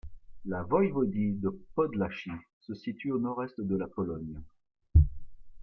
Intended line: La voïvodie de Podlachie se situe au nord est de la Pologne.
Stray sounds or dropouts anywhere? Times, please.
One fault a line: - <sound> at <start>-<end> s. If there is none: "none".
none